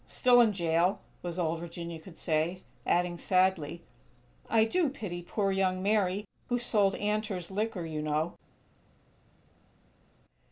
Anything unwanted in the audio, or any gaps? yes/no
no